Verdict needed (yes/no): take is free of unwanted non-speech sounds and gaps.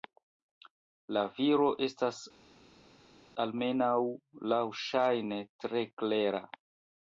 yes